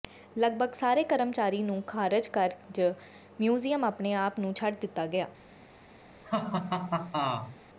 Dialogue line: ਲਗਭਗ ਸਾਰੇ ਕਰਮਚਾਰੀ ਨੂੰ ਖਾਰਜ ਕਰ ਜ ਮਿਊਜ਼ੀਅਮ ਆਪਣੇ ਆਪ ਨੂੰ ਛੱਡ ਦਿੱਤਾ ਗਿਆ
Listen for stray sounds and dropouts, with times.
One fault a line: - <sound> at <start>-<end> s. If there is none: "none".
- laugh at 6.2-7.6 s